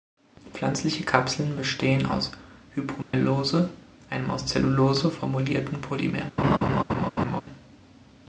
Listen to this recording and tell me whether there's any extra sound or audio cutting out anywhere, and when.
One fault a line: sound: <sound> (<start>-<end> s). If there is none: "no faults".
sound: dropout (3.0-3.1 s)
sound: laugh (6.4-7.4 s)